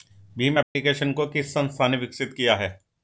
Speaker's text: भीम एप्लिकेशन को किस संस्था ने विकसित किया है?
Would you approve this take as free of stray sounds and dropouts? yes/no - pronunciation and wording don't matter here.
no